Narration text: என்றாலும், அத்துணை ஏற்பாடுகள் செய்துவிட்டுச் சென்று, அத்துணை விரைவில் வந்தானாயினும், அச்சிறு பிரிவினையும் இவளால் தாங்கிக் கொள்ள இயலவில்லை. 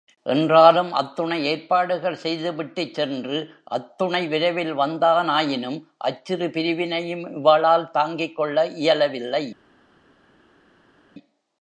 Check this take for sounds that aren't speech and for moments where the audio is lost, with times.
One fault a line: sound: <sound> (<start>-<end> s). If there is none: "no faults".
no faults